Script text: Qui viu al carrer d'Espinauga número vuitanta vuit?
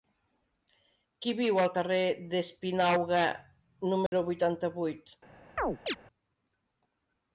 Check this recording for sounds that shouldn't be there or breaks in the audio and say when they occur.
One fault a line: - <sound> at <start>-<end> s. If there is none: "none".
- dropout at 4.1-4.1 s
- chirp at 5.6-6.0 s